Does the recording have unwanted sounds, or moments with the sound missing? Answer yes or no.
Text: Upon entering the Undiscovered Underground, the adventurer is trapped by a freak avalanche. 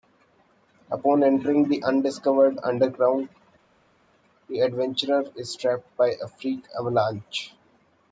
no